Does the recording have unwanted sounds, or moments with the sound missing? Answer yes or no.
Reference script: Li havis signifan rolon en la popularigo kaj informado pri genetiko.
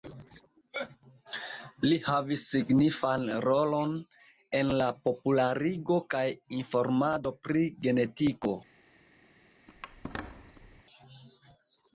yes